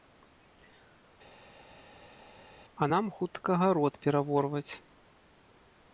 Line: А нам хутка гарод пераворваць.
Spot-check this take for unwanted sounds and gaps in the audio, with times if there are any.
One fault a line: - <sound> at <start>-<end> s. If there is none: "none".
none